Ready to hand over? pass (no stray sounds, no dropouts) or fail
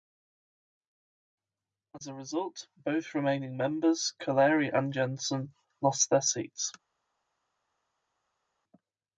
pass